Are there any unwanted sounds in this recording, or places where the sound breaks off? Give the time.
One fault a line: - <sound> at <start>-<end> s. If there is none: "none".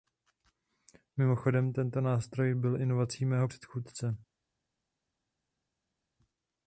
none